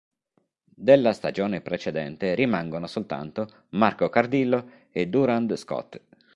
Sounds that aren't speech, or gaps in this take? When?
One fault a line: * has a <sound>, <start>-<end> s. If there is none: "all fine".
all fine